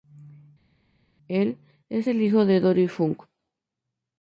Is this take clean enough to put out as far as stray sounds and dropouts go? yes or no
yes